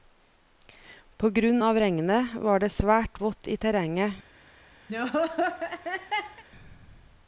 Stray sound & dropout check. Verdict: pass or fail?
fail